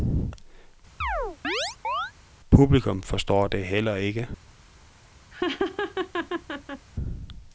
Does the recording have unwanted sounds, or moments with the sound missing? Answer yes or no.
yes